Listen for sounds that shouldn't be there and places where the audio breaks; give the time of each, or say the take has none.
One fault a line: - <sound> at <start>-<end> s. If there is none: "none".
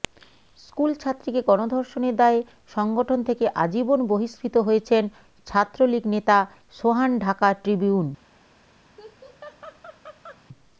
- laugh at 9.0-10.4 s